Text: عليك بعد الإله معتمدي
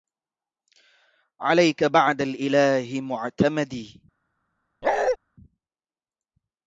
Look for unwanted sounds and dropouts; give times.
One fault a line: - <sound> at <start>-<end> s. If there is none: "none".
- bark at 4.8-5.2 s